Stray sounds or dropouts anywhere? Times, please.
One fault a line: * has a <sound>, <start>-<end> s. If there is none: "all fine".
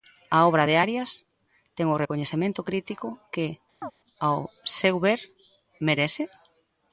* has a chirp, 3.8-3.9 s